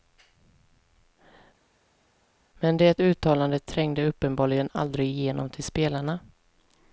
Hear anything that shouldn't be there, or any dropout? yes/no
no